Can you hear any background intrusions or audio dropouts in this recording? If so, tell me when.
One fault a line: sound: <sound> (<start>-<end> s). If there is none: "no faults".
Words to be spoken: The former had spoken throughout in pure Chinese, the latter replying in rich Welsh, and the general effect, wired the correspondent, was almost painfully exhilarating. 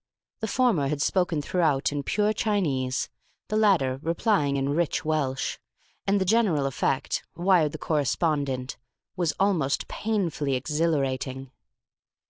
no faults